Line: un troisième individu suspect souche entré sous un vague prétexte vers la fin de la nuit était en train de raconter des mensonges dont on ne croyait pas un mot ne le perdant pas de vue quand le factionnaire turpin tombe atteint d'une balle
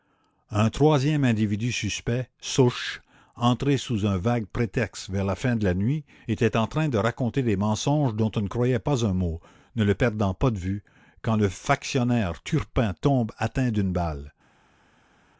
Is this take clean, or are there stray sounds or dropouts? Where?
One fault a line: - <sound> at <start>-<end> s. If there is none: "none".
none